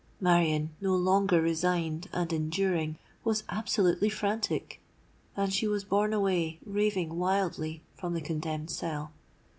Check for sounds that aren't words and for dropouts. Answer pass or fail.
pass